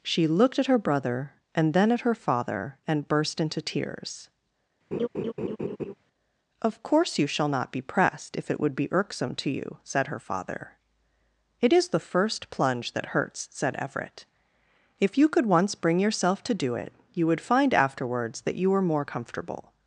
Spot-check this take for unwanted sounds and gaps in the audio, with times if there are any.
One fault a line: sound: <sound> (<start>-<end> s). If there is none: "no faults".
sound: laugh (4.9-5.9 s)